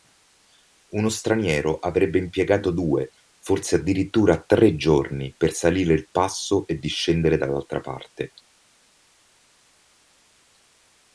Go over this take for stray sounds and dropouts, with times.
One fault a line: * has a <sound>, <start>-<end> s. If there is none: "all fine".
all fine